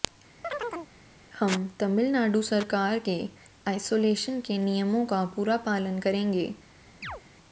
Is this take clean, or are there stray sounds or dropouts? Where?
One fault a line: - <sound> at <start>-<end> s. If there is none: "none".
- chirp at 0.4-0.9 s
- chirp at 7.0-7.2 s